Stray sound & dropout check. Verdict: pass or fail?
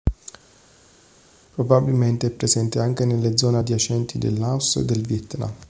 pass